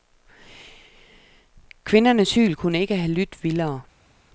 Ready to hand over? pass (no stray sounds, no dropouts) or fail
pass